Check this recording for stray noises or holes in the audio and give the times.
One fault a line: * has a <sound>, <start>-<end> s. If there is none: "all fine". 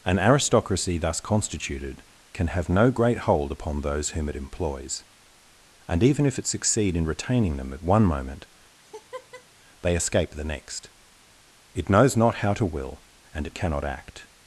* has a laugh, 8.8-9.5 s